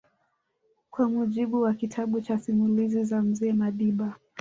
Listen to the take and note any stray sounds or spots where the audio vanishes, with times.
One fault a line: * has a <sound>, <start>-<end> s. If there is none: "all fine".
all fine